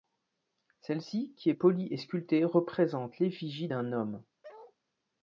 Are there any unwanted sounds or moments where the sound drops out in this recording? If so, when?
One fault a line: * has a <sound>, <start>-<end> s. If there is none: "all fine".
* has a bark, 4.4-4.8 s